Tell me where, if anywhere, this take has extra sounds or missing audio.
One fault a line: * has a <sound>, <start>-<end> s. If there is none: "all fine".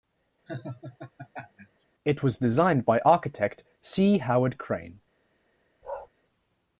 * has a laugh, 0.5-1.8 s
* has a bark, 5.8-6.1 s